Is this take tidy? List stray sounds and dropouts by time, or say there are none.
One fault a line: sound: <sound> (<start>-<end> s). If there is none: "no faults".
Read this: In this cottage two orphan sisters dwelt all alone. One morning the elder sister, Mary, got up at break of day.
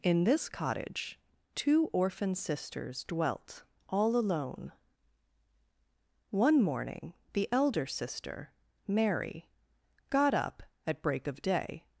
no faults